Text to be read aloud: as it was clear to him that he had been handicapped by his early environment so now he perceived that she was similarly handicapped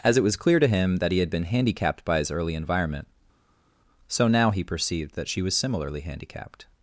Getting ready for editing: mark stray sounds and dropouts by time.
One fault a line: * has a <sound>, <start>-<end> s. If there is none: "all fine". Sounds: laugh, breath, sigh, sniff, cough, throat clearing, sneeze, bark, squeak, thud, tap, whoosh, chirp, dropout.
all fine